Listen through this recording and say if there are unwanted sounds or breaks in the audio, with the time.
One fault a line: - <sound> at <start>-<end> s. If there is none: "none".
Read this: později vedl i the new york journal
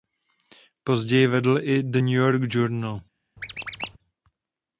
- squeak at 3.4-4.0 s